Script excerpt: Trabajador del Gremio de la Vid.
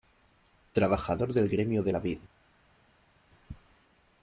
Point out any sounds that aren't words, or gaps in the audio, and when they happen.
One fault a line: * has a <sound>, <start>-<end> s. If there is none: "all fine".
all fine